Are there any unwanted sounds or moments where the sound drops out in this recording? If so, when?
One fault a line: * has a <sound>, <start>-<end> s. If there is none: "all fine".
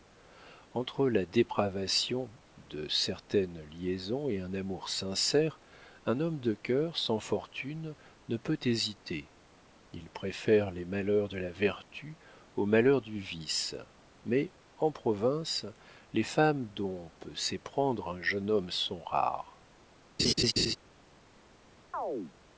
* has a laugh, 20.2-20.8 s
* has a chirp, 21.9-22.3 s